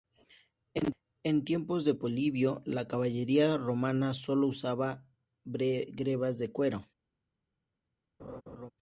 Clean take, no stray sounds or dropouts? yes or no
no